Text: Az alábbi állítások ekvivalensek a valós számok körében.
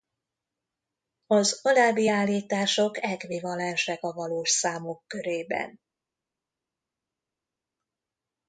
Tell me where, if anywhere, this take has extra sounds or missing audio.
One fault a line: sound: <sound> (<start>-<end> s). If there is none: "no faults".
no faults